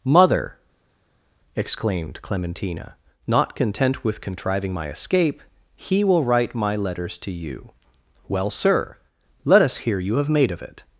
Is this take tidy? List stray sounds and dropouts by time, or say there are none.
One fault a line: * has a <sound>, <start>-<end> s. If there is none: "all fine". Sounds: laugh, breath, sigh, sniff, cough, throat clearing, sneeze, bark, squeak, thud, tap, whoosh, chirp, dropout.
all fine